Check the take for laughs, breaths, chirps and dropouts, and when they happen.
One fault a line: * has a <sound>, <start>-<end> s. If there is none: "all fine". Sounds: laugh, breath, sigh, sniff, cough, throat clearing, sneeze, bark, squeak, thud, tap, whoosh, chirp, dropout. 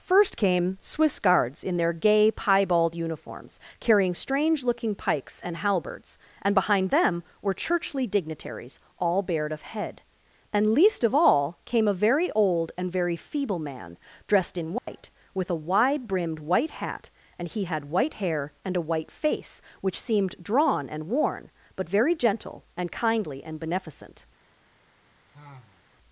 * has a dropout, 14.8-14.9 s
* has a sigh, 25.3-25.9 s